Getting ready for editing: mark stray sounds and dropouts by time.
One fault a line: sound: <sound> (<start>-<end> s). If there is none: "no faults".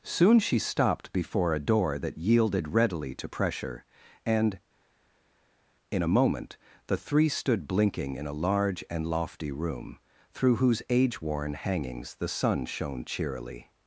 no faults